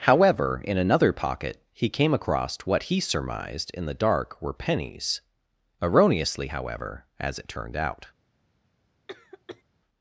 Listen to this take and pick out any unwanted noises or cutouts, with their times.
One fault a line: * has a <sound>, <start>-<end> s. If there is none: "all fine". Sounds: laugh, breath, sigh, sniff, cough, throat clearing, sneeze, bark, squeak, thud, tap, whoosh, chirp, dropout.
* has a cough, 9.1-9.6 s